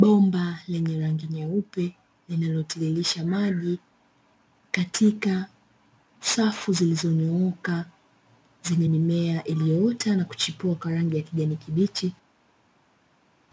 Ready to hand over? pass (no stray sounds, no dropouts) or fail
pass